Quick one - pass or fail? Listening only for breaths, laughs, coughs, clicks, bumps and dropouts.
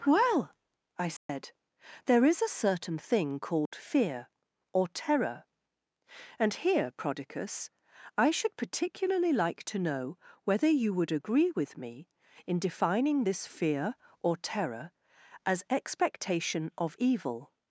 fail